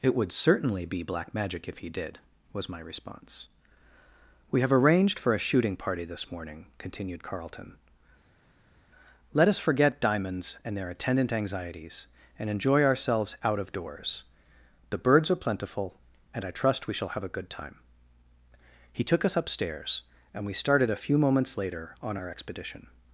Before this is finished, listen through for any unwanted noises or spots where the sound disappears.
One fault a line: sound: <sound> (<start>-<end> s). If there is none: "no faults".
no faults